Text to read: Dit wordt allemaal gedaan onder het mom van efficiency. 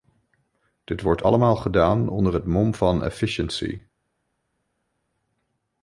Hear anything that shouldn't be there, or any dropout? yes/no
no